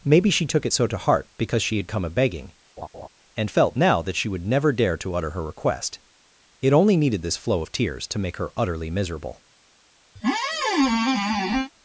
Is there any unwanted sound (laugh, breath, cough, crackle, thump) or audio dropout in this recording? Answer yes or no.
yes